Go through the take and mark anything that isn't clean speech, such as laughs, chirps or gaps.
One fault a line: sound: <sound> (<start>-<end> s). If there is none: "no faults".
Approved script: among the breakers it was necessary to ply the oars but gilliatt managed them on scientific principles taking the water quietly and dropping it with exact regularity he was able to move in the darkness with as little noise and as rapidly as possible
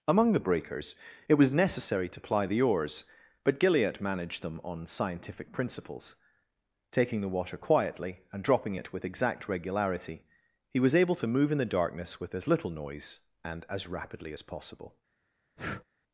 sound: breath (15.6-15.9 s)